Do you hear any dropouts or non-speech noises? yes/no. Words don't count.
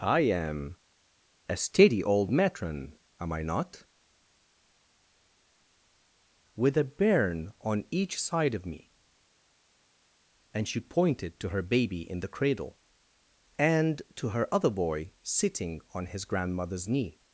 no